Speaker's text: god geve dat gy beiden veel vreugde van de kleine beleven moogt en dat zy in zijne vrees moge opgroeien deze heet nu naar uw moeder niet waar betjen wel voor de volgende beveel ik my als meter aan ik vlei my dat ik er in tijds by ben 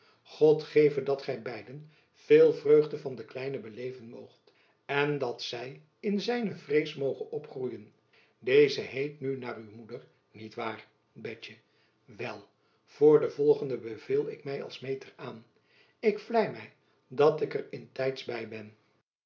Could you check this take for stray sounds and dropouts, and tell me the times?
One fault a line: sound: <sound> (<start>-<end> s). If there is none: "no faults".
no faults